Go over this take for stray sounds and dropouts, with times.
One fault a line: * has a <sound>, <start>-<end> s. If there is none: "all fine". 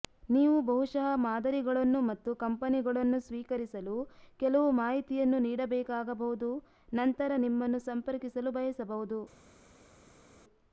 all fine